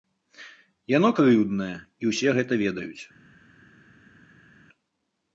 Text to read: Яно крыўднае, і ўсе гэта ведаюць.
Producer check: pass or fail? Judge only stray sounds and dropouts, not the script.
pass